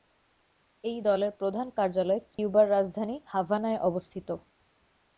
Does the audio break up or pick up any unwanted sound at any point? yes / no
yes